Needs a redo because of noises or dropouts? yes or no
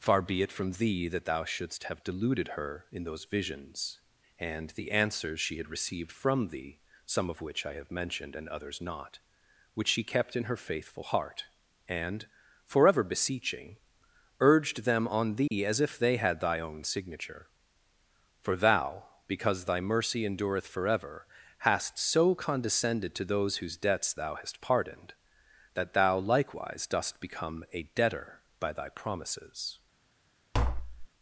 yes